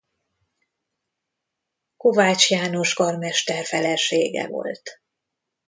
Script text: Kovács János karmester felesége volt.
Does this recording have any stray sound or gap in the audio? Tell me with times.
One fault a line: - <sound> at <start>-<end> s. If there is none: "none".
none